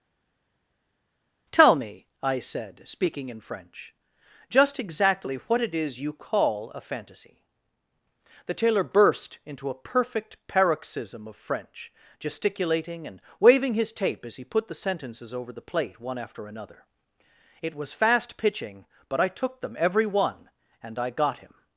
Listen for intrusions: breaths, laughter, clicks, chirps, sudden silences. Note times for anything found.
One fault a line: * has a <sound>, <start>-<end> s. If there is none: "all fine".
all fine